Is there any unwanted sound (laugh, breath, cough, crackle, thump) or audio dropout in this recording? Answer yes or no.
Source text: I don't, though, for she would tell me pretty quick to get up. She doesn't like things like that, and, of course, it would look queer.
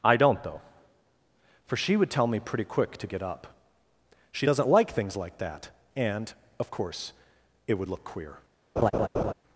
yes